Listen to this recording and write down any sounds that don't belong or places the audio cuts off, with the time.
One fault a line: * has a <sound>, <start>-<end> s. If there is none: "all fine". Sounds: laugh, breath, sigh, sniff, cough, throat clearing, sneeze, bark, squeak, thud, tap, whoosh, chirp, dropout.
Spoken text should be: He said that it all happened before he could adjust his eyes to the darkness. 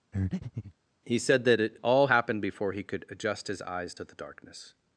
* has a breath, 0.1-0.7 s